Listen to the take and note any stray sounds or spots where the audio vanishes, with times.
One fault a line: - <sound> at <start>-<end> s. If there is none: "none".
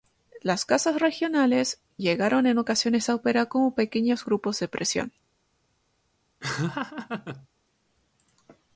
- laugh at 6.4-7.5 s